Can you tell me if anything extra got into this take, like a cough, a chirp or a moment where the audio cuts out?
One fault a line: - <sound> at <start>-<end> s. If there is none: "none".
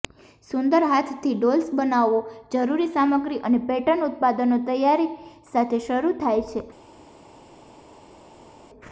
none